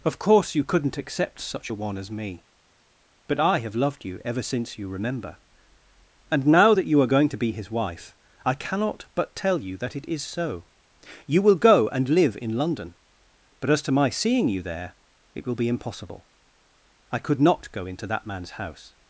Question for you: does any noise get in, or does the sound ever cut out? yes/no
no